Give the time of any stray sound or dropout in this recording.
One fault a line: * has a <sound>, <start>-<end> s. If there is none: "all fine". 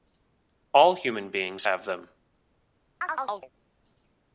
* has a chirp, 3.0-3.5 s